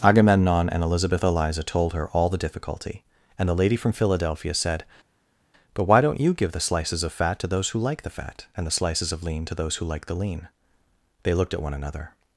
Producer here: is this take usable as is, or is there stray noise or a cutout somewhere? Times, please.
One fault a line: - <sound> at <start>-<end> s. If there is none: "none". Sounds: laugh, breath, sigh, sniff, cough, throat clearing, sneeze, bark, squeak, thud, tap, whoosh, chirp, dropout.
none